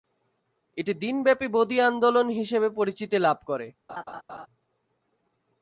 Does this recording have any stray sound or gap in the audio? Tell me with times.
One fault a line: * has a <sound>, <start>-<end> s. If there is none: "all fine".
* has a laugh, 3.9-4.5 s